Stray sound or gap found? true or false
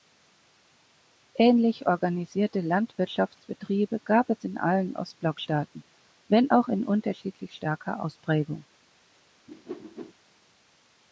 true